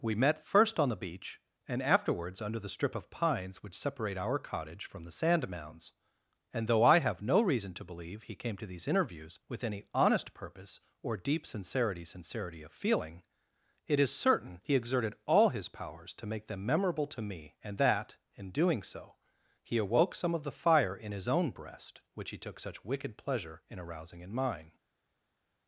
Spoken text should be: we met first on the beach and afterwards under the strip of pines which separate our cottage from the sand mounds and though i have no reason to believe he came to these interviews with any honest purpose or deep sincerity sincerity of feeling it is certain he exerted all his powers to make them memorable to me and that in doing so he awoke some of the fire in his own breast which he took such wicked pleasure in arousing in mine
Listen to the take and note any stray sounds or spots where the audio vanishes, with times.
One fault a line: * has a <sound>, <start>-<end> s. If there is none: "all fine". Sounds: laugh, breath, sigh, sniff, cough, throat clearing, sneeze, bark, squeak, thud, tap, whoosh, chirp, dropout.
all fine